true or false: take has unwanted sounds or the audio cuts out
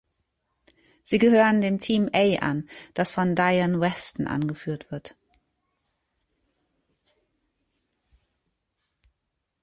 false